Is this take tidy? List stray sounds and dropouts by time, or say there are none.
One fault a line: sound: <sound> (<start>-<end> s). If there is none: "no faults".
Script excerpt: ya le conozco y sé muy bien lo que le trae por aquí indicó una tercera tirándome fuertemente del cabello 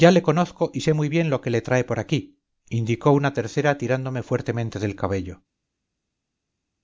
no faults